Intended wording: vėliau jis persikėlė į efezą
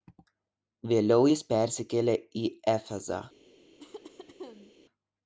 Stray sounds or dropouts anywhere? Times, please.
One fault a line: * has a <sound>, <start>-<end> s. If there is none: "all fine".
* has a cough, 3.8-4.7 s